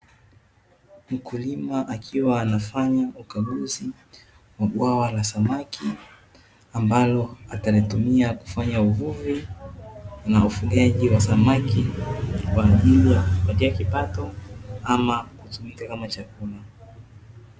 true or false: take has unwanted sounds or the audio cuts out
false